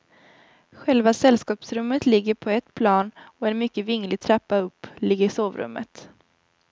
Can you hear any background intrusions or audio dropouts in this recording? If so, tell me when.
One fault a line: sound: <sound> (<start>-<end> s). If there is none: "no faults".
no faults